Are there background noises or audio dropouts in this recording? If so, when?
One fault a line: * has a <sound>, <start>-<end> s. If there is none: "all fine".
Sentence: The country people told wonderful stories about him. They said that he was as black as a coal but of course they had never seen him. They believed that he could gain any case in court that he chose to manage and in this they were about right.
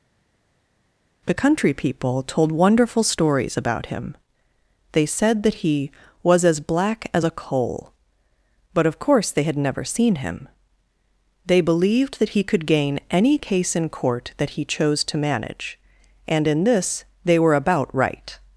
all fine